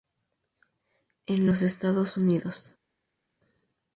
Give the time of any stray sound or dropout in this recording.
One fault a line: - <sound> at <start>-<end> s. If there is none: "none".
none